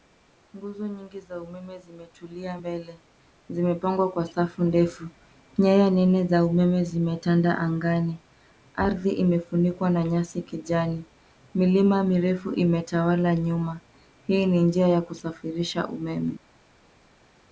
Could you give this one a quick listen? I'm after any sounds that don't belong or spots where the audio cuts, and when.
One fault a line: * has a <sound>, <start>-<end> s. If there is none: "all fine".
all fine